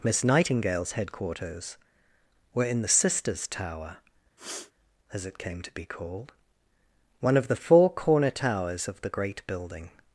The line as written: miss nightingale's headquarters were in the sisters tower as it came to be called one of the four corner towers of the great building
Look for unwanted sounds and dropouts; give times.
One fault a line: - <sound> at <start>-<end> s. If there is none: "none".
- sniff at 4.4-4.7 s